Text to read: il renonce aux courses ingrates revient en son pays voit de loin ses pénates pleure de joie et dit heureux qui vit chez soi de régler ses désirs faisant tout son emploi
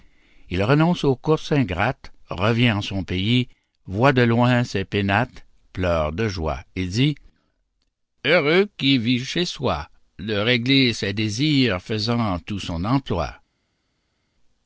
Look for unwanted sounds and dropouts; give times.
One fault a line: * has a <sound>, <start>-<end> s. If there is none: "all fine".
all fine